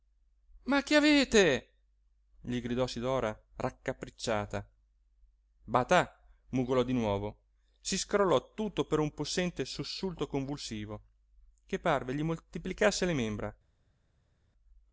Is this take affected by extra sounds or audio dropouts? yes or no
no